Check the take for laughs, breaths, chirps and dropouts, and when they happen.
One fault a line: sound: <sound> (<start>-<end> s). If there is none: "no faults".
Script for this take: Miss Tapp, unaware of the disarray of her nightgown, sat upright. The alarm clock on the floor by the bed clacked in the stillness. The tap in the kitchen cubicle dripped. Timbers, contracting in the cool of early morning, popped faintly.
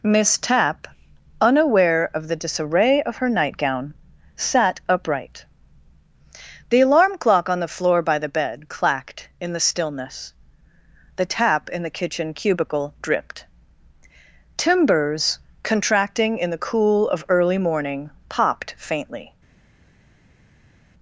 no faults